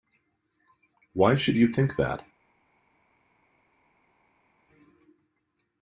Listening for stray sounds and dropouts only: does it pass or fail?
pass